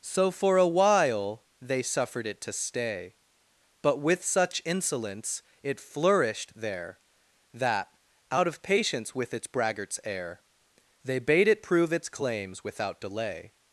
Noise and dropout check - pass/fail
pass